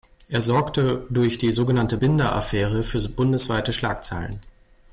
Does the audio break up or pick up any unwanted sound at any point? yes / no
no